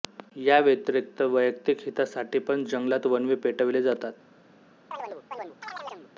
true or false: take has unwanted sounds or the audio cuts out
true